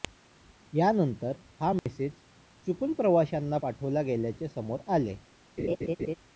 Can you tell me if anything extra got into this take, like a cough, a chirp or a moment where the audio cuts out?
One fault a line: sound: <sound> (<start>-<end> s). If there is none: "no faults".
sound: dropout (1.8-1.9 s)
sound: laugh (5.6-6.2 s)